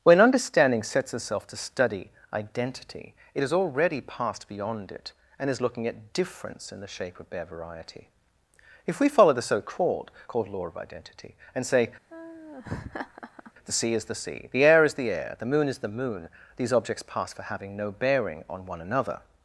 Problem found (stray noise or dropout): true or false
true